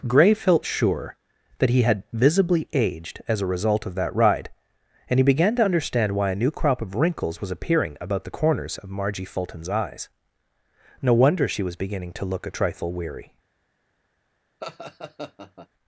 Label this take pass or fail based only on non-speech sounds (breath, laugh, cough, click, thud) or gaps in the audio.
fail